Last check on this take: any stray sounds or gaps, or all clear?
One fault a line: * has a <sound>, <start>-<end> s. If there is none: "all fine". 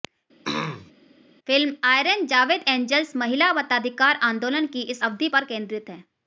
* has a throat clearing, 0.4-0.9 s